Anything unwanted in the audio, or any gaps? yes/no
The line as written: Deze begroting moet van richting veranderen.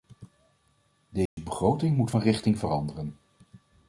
yes